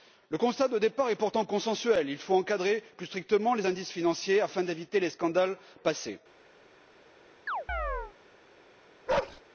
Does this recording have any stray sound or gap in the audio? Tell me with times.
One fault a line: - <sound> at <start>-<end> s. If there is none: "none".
- chirp at 7.5-8.1 s
- bark at 9.1-9.4 s